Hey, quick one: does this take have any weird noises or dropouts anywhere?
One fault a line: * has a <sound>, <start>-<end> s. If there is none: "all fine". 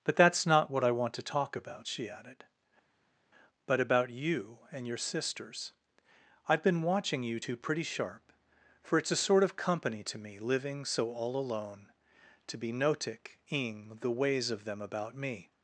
all fine